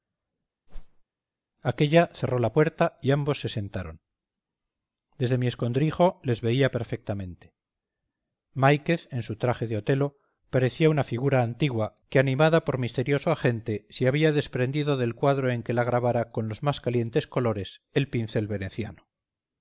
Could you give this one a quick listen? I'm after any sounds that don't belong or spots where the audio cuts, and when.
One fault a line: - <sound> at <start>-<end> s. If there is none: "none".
- whoosh at 0.7-1.0 s